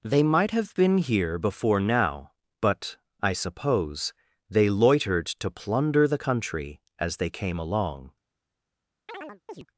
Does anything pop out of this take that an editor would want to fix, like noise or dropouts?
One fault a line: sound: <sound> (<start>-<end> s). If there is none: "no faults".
sound: chirp (9.1-9.7 s)